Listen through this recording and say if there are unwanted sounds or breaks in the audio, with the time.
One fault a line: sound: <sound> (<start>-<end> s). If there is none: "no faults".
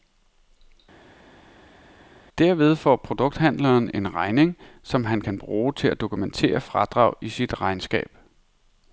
no faults